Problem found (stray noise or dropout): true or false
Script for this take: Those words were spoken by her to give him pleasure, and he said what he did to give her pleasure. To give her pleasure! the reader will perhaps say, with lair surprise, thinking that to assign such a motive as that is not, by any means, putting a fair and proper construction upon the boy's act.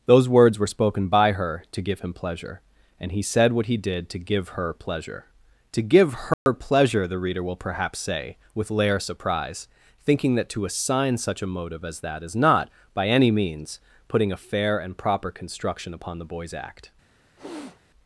true